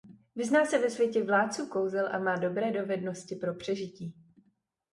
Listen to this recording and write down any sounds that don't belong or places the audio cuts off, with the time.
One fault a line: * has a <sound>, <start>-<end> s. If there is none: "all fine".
all fine